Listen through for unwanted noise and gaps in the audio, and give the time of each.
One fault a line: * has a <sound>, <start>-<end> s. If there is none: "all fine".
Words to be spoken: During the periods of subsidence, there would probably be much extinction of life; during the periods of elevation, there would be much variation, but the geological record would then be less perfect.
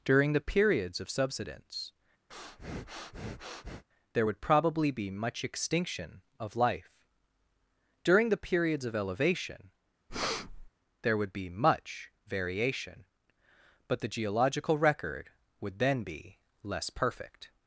* has a breath, 2.3-3.8 s
* has a breath, 10.1-10.7 s